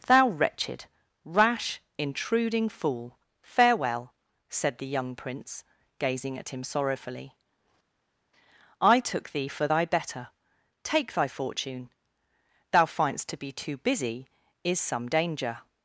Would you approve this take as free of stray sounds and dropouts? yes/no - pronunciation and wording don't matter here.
yes